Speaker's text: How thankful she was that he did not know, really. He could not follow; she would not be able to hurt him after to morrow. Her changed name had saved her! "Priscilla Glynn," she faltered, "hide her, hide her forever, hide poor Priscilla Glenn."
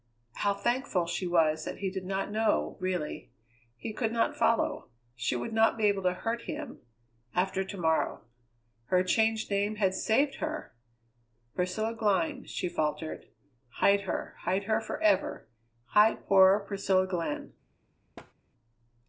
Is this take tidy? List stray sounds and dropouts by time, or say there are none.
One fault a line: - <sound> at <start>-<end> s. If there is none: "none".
- thud at 18.2-18.3 s